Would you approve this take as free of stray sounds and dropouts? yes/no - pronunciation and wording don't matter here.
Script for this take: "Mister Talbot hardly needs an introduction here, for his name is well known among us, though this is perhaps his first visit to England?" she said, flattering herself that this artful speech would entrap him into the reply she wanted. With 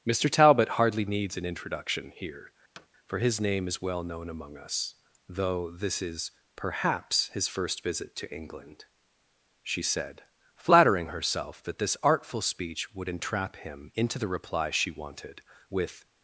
no